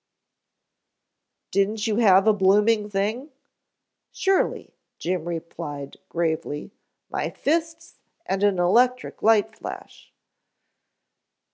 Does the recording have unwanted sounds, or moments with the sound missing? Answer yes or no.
no